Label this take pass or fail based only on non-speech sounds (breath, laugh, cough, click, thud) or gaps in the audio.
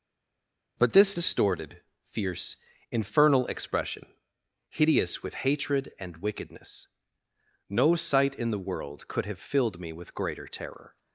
pass